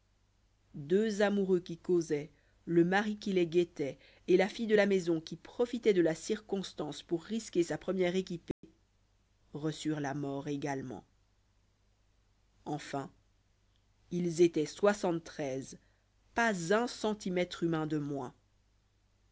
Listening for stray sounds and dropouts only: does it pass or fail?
fail